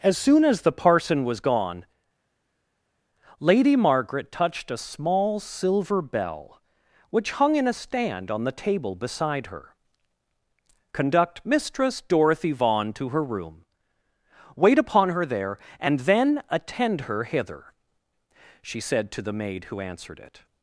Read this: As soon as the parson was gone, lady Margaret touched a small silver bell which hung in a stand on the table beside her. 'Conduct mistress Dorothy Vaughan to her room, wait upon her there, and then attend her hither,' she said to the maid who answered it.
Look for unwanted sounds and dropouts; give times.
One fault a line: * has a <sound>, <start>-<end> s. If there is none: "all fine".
all fine